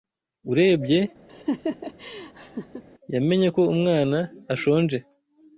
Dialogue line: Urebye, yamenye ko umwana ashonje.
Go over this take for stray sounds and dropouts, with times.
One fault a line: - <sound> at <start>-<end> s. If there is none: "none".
- laugh at 1.3-2.8 s